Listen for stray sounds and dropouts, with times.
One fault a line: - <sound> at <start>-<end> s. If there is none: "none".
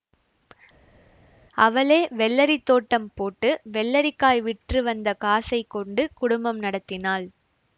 none